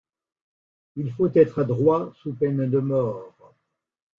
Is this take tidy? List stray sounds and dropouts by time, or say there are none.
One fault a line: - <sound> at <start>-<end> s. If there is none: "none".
none